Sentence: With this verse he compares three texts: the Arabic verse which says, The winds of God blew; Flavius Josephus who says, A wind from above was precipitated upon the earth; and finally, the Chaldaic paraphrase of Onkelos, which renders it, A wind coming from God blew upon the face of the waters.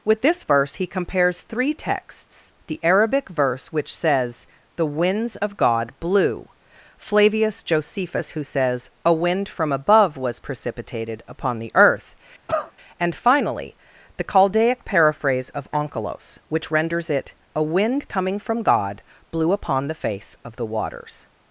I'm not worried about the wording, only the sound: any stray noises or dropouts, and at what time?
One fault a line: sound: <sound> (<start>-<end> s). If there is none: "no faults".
sound: cough (12.5-12.7 s)